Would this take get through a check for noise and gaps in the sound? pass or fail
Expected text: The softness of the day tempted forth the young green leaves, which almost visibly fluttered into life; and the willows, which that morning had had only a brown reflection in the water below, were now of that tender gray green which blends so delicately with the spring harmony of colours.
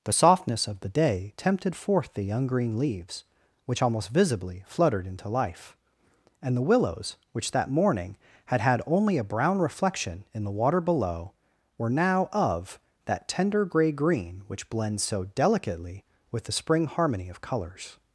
pass